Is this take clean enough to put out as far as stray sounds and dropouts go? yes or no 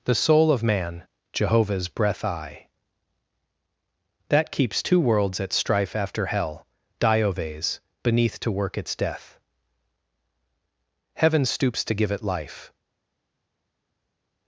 yes